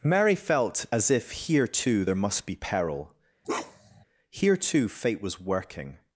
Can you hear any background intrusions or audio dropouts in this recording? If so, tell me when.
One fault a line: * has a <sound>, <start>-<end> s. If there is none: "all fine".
* has a bark, 3.4-4.0 s